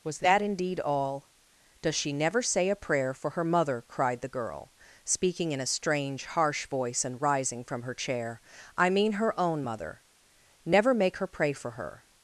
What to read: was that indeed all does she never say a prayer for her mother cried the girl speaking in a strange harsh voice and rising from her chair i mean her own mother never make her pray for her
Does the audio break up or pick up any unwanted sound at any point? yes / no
no